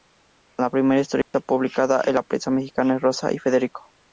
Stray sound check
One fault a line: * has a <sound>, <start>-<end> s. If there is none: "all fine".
* has a dropout, 1.2-1.3 s